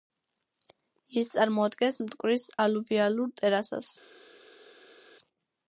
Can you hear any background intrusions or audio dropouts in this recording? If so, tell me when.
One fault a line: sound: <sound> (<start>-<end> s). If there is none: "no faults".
no faults